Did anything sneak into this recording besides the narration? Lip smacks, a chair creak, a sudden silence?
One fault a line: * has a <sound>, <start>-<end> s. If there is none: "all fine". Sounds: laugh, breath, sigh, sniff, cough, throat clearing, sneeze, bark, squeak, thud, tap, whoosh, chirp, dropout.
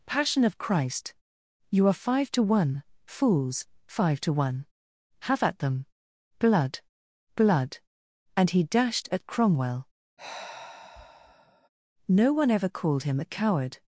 * has a sigh, 10.2-11.7 s